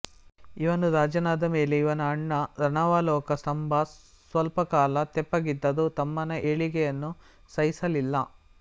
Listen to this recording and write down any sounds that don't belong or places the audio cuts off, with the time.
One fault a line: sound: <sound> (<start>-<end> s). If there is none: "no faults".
no faults